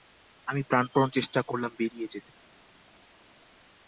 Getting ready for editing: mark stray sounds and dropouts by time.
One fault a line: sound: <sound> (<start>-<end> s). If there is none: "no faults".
no faults